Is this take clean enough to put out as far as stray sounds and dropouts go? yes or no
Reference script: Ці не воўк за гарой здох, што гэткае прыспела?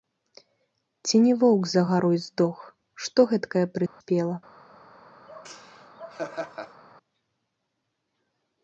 no